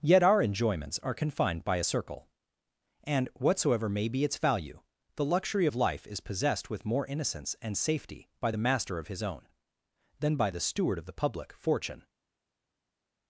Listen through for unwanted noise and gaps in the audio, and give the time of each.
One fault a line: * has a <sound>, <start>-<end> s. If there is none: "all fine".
all fine